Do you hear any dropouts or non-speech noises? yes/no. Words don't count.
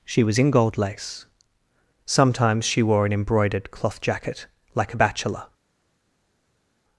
no